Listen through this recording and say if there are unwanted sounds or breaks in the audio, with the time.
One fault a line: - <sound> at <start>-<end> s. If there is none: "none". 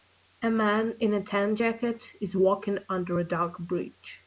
none